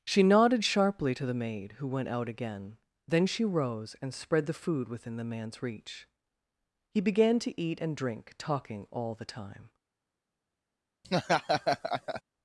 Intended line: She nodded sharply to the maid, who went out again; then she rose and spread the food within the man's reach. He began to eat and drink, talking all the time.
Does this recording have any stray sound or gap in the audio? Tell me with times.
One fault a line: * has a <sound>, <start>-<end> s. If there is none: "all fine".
* has a laugh, 11.0-12.2 s